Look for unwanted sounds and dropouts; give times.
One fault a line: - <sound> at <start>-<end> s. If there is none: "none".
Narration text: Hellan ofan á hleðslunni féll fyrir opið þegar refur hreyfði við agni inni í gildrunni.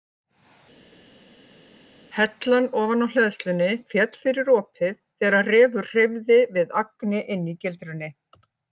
none